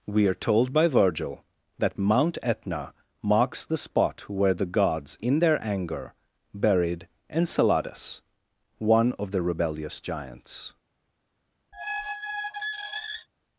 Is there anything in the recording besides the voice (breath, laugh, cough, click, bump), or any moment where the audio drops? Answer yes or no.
yes